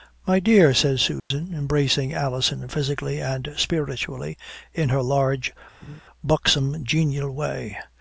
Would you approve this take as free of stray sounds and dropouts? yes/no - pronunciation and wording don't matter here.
no